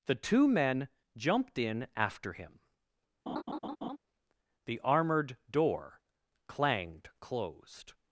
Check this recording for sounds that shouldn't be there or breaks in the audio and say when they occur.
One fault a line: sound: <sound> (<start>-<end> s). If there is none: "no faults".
sound: laugh (3.3-4.0 s)